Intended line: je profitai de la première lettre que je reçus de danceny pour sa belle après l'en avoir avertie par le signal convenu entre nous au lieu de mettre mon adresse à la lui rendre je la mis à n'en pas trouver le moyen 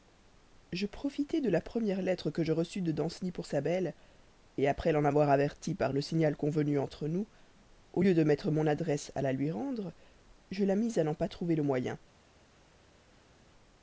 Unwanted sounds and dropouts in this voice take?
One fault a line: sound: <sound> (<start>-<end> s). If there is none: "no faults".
no faults